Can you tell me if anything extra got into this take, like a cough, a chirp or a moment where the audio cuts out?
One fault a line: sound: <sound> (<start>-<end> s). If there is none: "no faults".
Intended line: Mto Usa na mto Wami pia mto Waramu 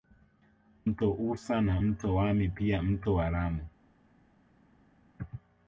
no faults